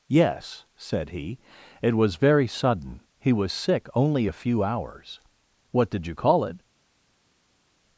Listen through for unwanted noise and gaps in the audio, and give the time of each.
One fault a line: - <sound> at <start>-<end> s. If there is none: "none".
none